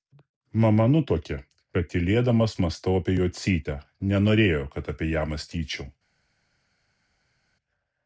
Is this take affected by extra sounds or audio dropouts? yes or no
no